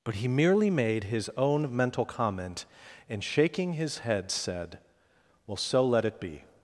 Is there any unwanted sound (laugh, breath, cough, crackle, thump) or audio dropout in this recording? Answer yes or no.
no